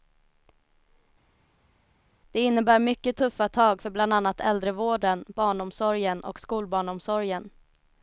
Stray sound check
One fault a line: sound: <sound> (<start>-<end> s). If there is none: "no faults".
no faults